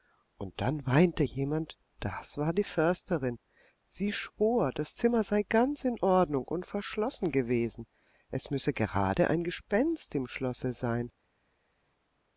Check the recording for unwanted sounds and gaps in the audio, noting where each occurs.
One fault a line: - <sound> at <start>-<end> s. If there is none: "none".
none